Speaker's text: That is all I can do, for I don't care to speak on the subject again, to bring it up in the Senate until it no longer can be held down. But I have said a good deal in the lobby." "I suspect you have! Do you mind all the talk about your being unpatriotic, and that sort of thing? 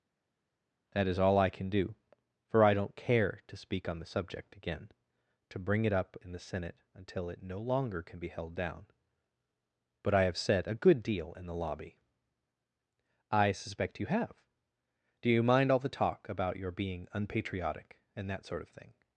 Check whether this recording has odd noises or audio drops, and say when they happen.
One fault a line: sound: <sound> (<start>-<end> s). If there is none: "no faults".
no faults